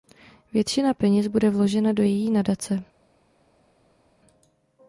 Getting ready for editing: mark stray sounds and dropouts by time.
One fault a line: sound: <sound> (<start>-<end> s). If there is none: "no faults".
no faults